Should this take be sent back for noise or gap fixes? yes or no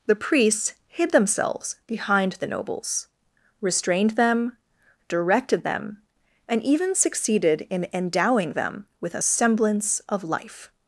no